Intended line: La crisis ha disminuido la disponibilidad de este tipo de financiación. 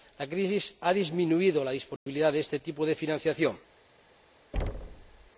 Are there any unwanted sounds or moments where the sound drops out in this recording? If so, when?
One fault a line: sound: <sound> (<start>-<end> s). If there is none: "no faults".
sound: dropout (2.0-2.1 s)
sound: thud (4.5-5.3 s)